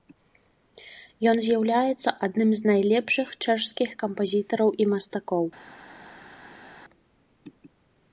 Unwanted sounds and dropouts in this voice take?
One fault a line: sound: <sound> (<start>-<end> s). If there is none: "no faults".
no faults